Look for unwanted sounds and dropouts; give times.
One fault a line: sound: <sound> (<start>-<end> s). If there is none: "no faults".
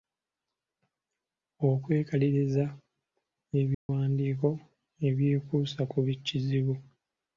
sound: dropout (3.7-3.9 s)